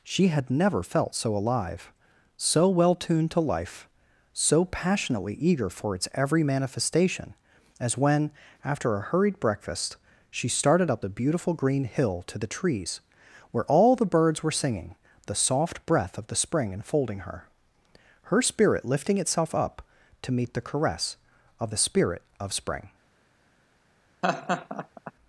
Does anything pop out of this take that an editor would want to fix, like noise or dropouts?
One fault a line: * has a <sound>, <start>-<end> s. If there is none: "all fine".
* has a laugh, 24.2-25.1 s